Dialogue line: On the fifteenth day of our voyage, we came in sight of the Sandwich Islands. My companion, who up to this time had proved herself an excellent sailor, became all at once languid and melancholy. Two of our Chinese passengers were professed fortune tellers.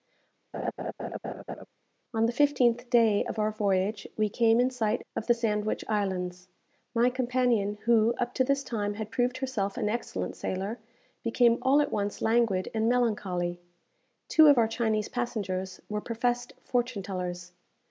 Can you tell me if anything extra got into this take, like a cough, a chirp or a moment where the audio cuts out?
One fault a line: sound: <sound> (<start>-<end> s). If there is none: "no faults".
sound: laugh (0.5-1.7 s)